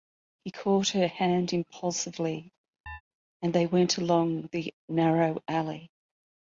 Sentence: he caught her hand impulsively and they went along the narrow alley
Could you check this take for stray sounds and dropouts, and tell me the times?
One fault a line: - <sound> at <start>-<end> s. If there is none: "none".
- chirp at 2.9-3.0 s